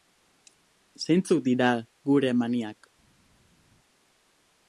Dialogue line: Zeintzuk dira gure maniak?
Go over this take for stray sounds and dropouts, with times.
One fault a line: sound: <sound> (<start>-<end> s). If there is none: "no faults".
no faults